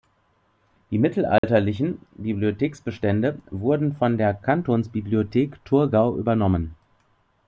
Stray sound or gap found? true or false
true